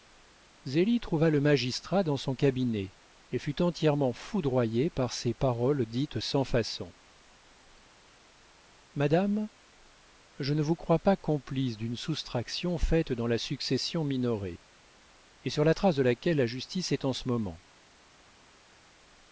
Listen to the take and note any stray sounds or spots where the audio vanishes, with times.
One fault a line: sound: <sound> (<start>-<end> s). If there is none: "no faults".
no faults